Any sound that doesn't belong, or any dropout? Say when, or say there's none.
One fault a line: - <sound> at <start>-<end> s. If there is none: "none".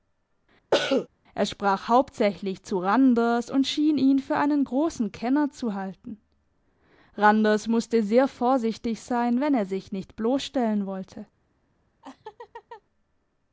- cough at 0.7-1.1 s
- laugh at 12.0-12.8 s